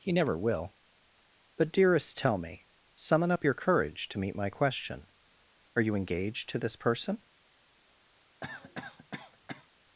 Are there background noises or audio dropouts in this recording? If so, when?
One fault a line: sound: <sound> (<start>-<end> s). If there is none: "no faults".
sound: cough (8.4-9.7 s)